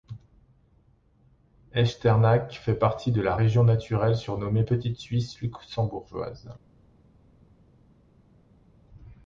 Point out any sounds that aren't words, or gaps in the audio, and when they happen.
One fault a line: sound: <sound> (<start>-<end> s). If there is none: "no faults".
no faults